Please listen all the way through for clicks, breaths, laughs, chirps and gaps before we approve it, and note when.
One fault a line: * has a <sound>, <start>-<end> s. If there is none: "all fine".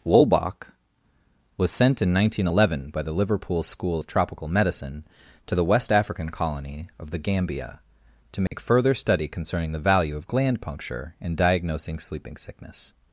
* has a dropout, 8.5-8.5 s